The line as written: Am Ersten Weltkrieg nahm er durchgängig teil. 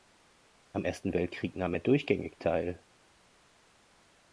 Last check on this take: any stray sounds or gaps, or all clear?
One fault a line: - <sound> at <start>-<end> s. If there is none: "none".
none